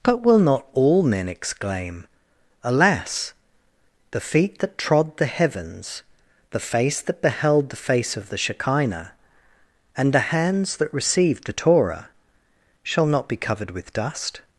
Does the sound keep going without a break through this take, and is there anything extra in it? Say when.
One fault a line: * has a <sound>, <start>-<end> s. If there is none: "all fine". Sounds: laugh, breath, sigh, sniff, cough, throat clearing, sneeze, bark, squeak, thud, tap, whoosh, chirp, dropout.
all fine